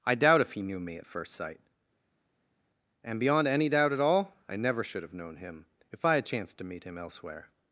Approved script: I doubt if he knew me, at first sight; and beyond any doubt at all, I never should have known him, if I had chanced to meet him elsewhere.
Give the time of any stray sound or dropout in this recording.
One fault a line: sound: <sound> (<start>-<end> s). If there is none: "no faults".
no faults